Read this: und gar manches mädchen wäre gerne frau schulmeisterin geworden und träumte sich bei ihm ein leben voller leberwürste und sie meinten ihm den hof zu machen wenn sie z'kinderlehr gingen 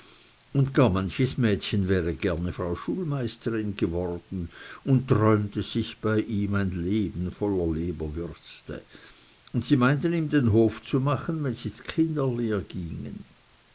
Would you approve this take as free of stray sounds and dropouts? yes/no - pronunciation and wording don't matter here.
yes